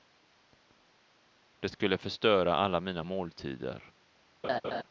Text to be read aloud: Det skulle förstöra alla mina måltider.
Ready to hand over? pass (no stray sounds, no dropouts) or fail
fail